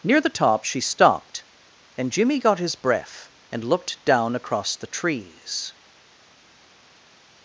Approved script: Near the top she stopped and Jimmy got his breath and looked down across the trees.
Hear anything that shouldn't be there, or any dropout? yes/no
no